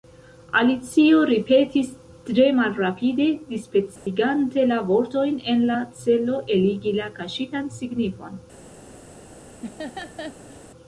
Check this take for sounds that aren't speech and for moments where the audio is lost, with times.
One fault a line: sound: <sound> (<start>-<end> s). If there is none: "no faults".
sound: dropout (4.0-4.1 s)
sound: laugh (9.6-10.6 s)